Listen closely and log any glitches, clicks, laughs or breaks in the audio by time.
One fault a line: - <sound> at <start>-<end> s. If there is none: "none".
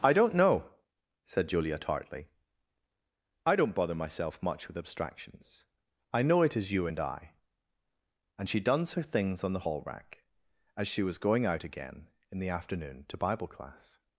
none